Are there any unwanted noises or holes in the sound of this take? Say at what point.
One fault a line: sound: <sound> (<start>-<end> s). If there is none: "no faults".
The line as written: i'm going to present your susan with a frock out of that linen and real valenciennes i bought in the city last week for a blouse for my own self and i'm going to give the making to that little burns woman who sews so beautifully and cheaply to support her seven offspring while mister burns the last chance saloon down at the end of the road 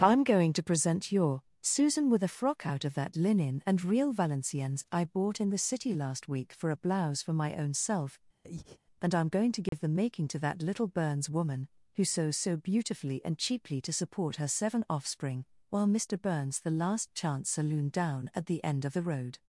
sound: breath (8.4-8.8 s)
sound: dropout (9.7-9.7 s)